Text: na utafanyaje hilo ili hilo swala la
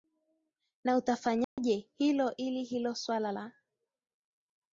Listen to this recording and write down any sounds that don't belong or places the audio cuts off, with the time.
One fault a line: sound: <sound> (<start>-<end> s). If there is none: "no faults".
sound: dropout (1.4-1.6 s)